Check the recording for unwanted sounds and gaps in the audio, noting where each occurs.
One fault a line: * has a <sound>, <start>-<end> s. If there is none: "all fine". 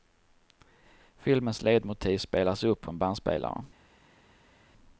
all fine